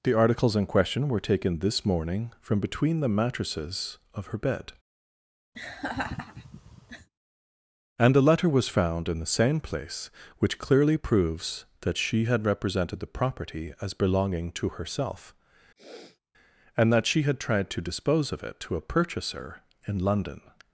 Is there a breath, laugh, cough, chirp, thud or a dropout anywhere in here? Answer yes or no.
yes